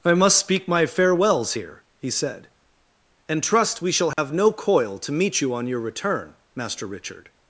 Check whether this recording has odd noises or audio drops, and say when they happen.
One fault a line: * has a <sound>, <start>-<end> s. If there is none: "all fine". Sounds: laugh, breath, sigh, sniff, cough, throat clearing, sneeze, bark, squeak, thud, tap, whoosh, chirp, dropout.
* has a dropout, 4.1-4.2 s